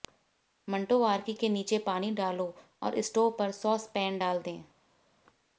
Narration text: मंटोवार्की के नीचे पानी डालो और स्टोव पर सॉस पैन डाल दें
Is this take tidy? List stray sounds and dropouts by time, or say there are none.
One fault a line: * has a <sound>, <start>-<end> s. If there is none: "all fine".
all fine